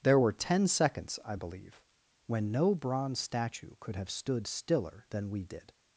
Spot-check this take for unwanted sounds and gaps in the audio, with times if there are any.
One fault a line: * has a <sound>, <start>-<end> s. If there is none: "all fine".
all fine